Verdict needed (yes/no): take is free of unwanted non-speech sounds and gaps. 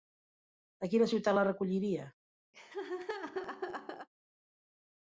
no